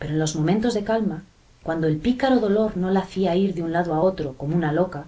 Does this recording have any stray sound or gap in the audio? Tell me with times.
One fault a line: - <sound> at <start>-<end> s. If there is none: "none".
none